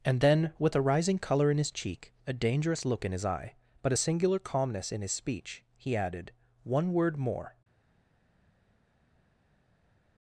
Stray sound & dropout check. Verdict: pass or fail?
pass